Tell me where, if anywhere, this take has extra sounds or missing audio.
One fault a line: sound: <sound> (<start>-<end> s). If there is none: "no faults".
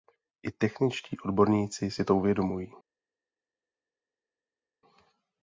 no faults